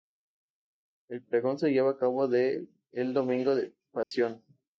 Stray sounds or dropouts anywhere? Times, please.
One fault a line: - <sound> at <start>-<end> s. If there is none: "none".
- dropout at 4.0-4.1 s